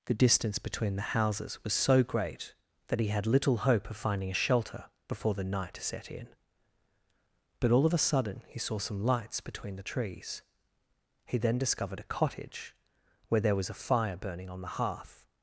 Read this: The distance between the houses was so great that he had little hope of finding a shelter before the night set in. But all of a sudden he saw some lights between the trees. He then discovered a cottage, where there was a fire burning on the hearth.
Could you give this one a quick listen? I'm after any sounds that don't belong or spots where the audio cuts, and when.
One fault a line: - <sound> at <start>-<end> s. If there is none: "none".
none